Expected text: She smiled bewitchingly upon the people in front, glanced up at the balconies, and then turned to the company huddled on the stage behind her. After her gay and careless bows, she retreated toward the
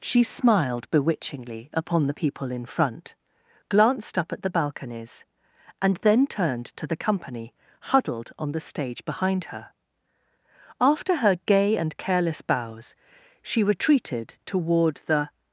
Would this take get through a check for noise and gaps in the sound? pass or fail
pass